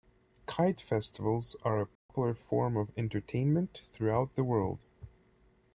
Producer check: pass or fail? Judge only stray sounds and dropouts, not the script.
fail